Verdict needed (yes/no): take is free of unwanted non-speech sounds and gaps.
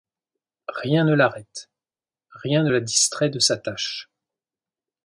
yes